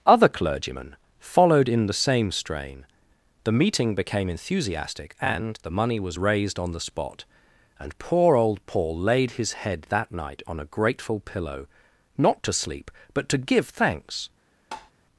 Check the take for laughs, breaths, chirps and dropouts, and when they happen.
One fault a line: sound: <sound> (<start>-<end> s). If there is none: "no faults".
sound: tap (14.7-14.9 s)